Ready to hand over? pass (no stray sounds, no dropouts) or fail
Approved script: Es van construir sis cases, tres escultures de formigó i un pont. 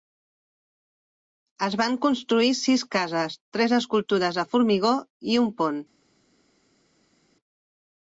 pass